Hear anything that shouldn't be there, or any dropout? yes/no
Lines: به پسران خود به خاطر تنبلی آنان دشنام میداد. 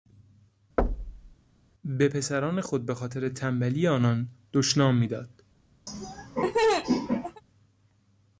yes